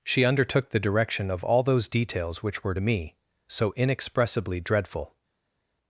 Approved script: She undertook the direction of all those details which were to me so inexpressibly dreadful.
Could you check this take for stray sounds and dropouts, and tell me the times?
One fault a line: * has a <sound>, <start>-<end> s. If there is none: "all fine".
all fine